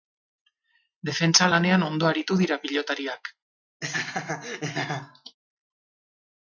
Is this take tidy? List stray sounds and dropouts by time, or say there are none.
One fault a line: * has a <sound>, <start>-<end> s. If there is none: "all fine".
* has a laugh, 3.8-5.4 s